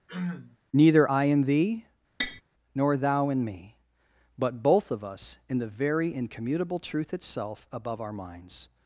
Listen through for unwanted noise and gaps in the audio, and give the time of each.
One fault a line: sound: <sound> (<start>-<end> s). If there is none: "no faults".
sound: throat clearing (0.1-0.6 s)
sound: tap (2.2-2.4 s)